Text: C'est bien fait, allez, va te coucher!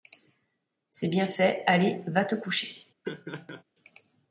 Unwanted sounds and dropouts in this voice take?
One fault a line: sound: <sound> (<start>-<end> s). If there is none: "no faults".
sound: laugh (3.0-3.6 s)